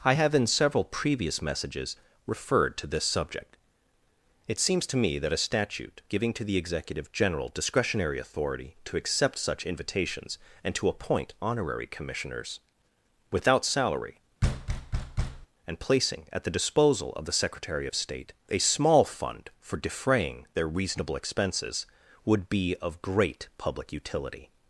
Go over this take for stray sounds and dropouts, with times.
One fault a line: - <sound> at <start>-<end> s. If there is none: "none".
- thud at 14.4-15.5 s